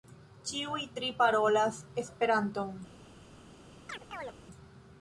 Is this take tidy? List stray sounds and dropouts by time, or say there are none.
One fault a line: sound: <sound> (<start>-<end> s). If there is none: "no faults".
sound: chirp (3.9-4.4 s)